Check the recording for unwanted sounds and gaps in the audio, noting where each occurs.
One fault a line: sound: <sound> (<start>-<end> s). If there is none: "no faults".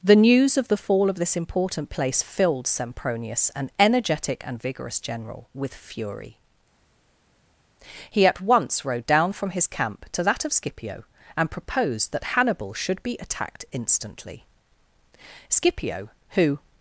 no faults